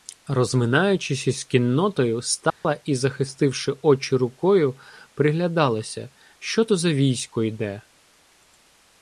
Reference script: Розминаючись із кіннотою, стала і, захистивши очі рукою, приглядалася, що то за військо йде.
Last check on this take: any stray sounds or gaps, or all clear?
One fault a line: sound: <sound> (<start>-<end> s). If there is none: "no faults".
sound: dropout (2.5-2.6 s)